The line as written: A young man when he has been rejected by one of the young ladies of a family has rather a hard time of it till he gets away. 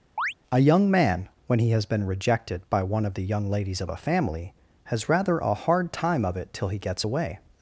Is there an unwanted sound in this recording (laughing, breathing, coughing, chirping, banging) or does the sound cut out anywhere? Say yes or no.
yes